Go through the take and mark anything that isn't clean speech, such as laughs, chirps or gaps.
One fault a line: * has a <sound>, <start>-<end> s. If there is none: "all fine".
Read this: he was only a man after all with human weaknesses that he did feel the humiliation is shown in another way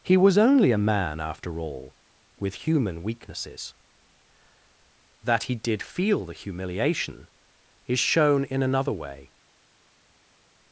all fine